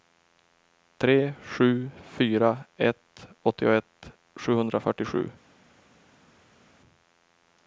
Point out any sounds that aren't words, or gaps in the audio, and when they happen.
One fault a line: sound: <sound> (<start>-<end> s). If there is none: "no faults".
no faults